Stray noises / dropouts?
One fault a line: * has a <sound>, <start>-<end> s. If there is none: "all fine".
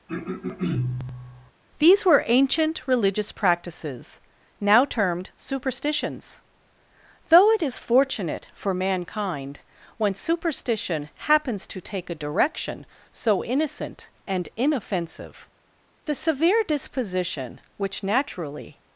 * has a throat clearing, 0.1-1.5 s